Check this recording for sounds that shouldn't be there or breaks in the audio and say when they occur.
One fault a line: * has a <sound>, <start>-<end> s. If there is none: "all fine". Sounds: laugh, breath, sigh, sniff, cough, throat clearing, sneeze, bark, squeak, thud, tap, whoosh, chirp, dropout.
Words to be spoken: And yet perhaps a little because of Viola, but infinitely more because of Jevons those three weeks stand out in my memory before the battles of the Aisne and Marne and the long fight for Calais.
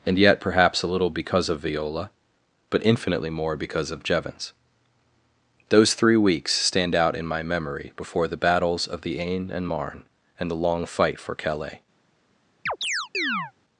* has a chirp, 12.7-13.5 s